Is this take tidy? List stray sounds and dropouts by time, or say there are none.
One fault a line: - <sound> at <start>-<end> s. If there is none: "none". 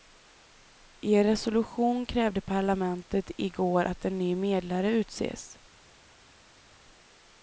none